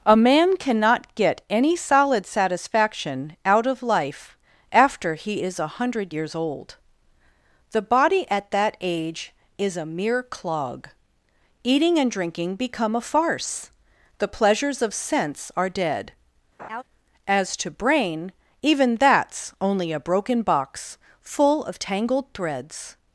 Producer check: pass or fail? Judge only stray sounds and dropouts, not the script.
fail